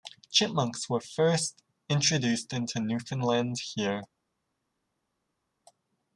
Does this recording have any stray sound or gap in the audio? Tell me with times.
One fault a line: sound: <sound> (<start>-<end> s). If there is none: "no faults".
no faults